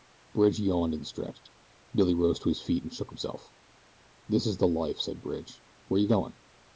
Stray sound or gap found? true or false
false